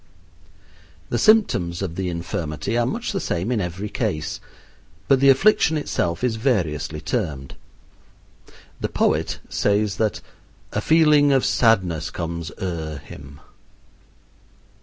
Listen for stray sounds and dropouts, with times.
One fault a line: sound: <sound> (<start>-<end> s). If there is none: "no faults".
no faults